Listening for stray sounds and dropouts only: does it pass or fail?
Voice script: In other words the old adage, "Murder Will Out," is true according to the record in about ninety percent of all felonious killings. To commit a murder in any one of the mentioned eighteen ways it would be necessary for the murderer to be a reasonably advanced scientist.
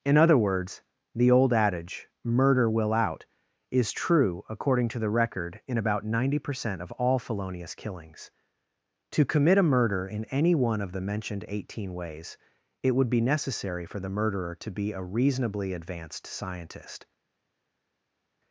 pass